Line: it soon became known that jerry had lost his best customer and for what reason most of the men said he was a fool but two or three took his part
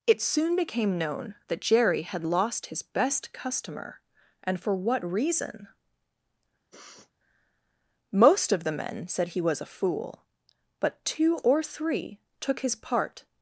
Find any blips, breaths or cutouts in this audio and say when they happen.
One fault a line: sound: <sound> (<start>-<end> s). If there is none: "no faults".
sound: sniff (6.7-7.1 s)